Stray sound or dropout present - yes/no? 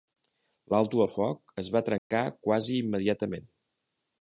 yes